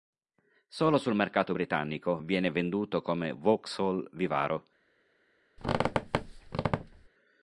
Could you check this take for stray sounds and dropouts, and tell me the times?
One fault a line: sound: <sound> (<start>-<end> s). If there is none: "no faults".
sound: squeak (5.6-7.1 s)